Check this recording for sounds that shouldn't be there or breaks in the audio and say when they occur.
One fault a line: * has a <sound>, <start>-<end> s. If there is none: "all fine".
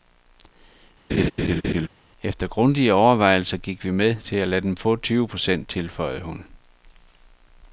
* has a laugh, 1.1-1.9 s